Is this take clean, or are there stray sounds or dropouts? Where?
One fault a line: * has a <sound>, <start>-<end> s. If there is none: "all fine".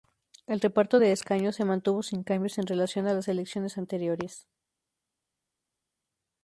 all fine